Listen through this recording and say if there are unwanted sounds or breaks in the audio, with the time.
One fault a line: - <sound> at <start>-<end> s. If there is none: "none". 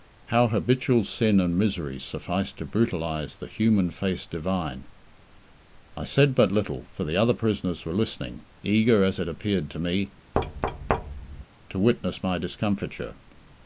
- thud at 10.3-11.4 s